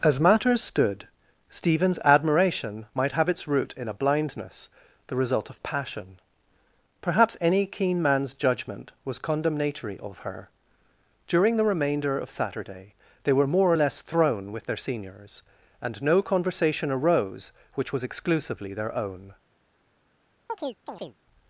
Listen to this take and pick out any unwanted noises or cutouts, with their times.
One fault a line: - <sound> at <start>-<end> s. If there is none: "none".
- chirp at 20.5-21.2 s